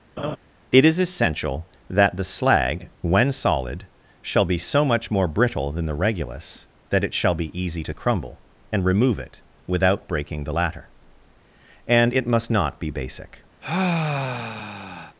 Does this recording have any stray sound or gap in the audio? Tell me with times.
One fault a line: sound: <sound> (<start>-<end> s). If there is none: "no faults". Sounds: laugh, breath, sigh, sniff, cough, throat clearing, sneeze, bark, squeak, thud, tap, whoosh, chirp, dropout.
sound: laugh (0.2-0.4 s)
sound: sigh (13.6-15.2 s)